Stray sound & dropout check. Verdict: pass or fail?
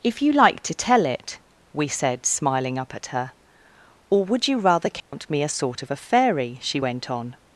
fail